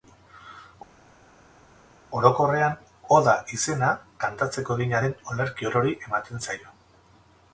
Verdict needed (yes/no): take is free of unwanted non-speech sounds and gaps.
yes